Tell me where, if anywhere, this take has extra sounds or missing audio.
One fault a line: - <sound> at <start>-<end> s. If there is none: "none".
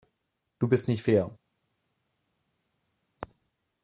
none